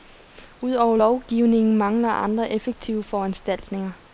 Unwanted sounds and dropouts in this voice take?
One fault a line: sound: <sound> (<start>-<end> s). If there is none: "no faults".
no faults